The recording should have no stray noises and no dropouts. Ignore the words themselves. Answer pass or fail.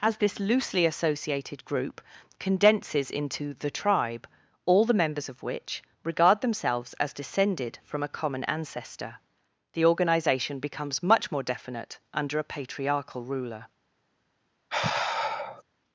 fail